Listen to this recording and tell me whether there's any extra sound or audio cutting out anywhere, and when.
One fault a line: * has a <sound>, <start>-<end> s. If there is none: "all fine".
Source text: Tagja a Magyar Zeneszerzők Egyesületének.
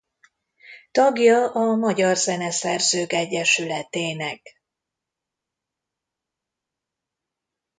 all fine